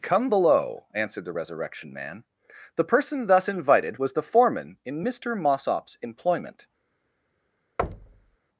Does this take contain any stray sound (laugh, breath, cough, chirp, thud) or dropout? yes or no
yes